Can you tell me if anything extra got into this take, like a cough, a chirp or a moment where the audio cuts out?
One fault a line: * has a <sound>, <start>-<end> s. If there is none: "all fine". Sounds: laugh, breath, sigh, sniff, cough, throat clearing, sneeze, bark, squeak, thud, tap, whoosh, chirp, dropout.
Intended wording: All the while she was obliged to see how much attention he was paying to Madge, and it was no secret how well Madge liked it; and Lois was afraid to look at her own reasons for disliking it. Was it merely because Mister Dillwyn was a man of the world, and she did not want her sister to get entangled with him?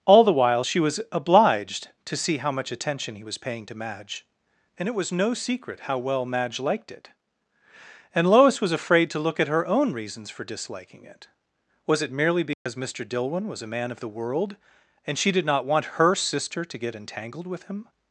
* has a dropout, 12.5-12.7 s